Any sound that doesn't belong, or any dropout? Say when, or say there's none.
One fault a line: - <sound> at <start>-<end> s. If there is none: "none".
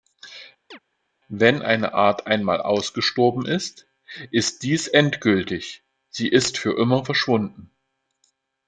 - chirp at 0.7-0.8 s